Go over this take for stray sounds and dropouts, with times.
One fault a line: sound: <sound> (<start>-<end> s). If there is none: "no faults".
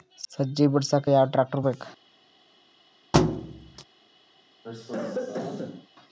sound: thud (3.1-3.8 s)
sound: cough (4.6-5.9 s)